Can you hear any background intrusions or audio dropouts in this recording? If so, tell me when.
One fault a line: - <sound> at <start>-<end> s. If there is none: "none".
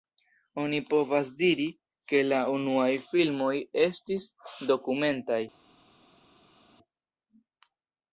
none